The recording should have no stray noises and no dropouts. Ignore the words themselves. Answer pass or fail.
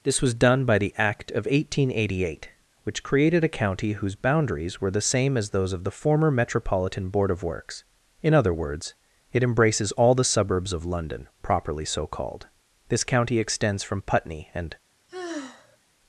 fail